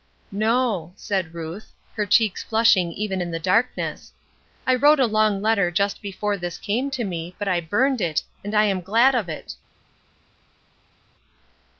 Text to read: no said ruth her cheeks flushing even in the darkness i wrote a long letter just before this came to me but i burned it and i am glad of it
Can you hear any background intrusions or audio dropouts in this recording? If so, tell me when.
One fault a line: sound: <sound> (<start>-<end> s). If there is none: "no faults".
no faults